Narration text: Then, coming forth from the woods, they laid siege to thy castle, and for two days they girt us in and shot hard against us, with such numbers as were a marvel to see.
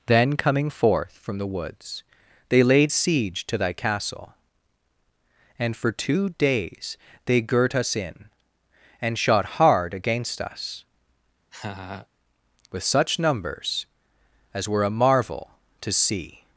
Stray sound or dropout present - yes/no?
yes